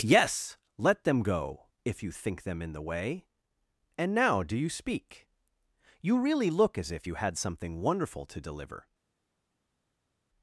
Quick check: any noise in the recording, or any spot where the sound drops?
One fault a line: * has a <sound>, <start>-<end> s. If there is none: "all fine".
all fine